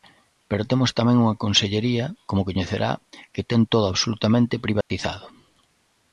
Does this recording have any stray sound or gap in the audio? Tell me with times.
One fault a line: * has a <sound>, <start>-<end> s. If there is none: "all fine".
* has a dropout, 4.8-4.9 s